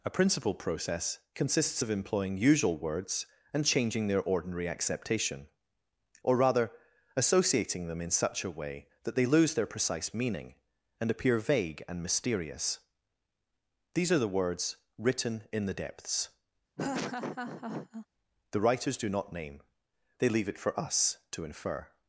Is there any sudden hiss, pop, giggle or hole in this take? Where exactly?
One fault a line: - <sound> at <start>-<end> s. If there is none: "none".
- laugh at 16.8-18.1 s